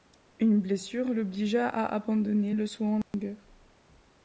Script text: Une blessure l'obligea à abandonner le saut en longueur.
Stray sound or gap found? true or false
true